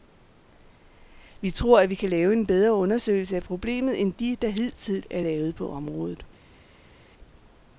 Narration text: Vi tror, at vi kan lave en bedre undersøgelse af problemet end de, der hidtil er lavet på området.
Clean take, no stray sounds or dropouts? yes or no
yes